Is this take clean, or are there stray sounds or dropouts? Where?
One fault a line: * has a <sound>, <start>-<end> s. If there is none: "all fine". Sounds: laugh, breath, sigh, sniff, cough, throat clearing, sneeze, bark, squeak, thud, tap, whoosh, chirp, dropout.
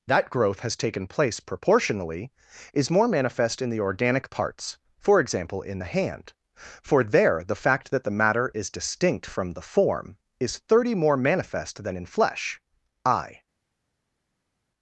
all fine